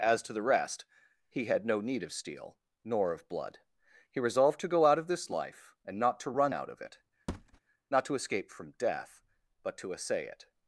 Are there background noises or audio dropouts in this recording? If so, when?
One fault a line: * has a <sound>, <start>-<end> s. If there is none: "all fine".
* has a thud, 7.3-7.6 s